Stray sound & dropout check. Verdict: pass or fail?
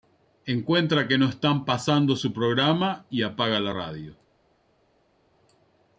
pass